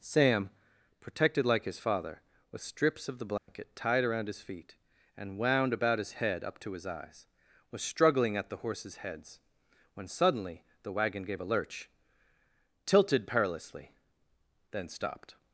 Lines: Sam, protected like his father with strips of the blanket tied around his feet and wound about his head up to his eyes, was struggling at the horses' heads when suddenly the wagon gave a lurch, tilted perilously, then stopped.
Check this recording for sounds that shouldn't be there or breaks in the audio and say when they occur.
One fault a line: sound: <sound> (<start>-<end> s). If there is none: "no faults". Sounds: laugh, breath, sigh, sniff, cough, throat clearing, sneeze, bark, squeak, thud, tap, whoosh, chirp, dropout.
sound: dropout (3.4-3.5 s)